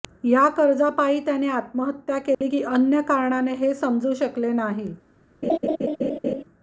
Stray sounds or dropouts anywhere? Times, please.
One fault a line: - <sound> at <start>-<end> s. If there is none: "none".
- dropout at 2.3-2.4 s
- laugh at 5.4-6.4 s